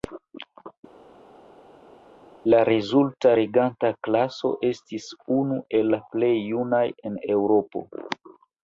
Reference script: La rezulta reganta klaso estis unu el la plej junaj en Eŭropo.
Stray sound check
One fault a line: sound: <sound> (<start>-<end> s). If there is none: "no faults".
no faults